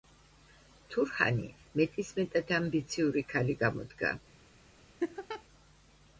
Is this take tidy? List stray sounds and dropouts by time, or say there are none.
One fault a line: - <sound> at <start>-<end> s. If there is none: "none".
- laugh at 5.0-5.4 s